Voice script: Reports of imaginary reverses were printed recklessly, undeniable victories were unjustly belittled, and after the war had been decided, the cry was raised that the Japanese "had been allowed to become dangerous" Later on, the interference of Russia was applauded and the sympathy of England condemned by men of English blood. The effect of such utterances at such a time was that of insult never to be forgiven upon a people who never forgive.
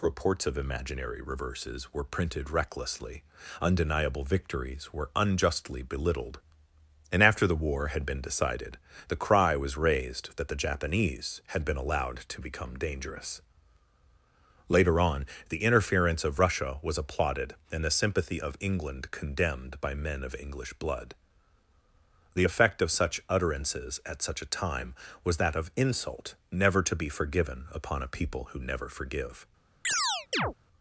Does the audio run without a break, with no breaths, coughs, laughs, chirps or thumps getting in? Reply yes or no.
no